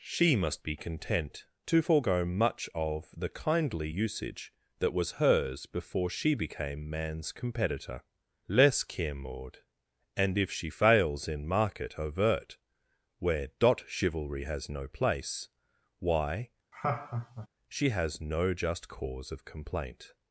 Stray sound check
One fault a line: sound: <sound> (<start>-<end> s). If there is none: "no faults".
sound: laugh (16.7-17.5 s)